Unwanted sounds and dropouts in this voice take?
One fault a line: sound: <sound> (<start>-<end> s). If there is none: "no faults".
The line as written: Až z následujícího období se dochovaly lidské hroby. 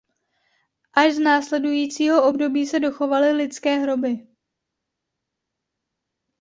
no faults